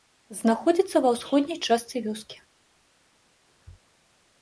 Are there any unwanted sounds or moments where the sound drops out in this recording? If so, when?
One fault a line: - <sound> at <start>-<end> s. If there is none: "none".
none